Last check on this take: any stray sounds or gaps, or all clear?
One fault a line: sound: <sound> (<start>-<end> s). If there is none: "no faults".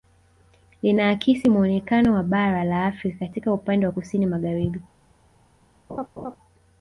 sound: laugh (5.9-6.4 s)